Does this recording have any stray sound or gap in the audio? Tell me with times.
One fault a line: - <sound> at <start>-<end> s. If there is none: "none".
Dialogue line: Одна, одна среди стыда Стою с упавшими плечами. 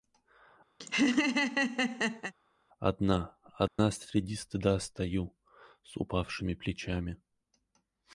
- laugh at 0.8-2.3 s
- dropout at 3.7-3.8 s